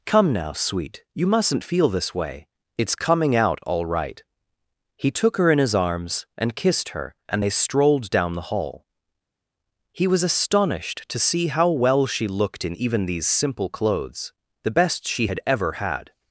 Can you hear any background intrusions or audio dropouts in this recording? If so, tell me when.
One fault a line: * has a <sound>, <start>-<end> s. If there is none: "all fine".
all fine